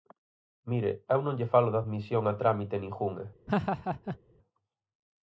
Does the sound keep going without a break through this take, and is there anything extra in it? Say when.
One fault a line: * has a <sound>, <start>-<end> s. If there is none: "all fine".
* has a laugh, 3.5-4.2 s